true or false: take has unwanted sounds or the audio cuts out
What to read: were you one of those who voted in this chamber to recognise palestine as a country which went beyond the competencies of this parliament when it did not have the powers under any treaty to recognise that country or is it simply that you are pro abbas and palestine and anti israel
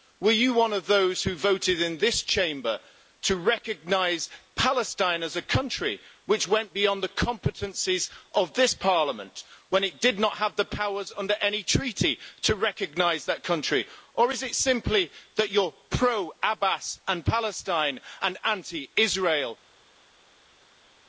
false